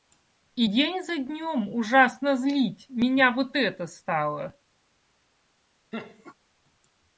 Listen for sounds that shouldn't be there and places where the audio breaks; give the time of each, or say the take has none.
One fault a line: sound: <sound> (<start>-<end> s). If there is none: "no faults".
sound: laugh (5.9-6.3 s)